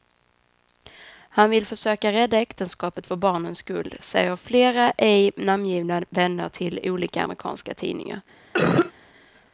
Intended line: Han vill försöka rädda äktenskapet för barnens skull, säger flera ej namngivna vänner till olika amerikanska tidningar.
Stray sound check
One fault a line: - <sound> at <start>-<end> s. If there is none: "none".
- cough at 8.5-8.9 s